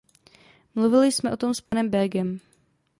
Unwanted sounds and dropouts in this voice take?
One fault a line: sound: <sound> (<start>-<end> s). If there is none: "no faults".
sound: dropout (1.7-1.7 s)